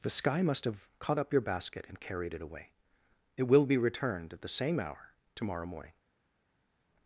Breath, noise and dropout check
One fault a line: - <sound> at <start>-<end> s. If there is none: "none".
none